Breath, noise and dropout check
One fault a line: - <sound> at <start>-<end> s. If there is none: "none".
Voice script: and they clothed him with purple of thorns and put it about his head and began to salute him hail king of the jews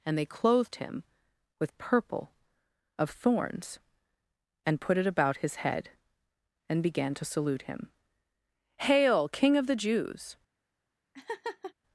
- laugh at 11.1-11.7 s